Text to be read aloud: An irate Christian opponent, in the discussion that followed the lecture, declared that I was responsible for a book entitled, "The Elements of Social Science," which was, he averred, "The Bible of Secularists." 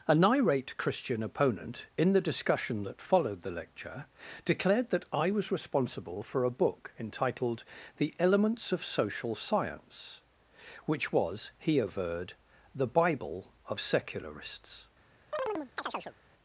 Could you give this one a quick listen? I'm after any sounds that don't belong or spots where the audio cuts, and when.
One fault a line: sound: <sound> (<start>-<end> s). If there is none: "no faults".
sound: chirp (15.3-16.2 s)